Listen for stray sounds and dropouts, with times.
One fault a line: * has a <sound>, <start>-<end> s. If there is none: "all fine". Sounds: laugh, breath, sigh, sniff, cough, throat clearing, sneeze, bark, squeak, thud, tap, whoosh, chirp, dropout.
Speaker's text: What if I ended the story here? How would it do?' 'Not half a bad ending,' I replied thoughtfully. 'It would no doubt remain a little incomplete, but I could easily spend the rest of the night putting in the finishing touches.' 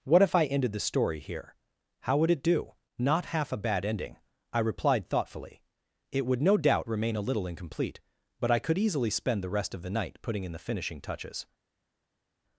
all fine